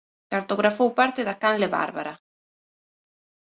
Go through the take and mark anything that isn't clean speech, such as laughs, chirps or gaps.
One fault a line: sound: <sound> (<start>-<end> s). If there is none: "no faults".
no faults